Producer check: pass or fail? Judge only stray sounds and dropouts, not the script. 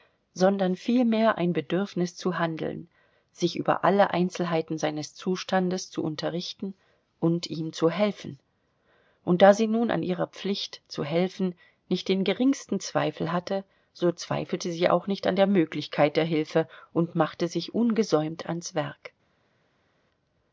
pass